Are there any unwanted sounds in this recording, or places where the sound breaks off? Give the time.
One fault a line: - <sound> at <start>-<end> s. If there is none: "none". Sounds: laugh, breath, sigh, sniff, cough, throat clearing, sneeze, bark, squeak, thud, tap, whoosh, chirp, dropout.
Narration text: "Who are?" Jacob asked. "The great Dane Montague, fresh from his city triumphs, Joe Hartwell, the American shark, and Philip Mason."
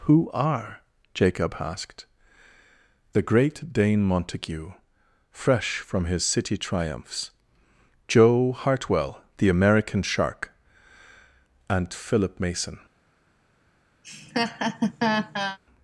- laugh at 14.0-15.6 s